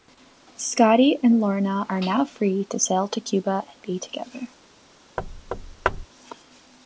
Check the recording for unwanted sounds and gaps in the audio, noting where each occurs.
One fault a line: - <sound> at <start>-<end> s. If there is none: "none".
- thud at 5.2-6.1 s